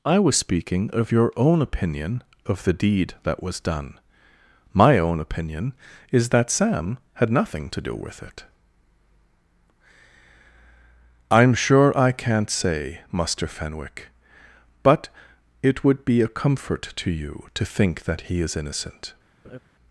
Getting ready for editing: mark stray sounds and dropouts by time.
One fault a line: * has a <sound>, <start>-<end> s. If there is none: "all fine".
* has a laugh, 19.4-19.6 s